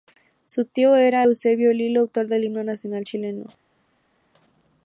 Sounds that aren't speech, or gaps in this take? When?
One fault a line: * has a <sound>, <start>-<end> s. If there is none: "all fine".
all fine